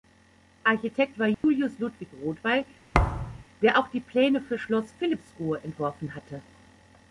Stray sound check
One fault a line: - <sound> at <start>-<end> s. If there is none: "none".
- dropout at 1.3-1.4 s
- thud at 2.9-3.4 s